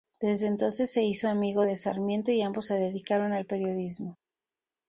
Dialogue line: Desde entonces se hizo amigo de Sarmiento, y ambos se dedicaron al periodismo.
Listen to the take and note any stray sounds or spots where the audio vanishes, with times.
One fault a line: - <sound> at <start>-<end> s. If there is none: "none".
none